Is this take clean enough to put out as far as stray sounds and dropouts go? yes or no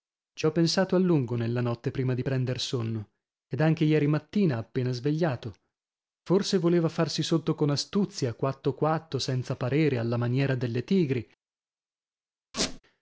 no